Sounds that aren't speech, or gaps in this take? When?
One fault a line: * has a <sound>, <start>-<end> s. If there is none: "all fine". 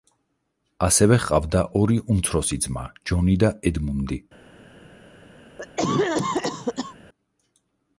* has a cough, 5.6-7.0 s